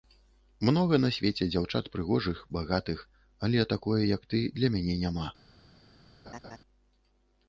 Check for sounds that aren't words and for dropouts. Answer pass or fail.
fail